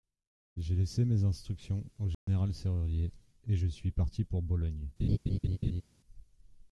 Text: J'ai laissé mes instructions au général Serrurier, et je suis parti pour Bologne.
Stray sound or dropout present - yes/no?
yes